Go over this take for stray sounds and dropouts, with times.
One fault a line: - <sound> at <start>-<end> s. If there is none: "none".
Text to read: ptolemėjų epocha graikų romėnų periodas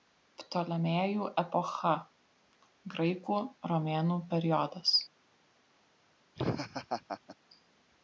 - laugh at 6.3-7.4 s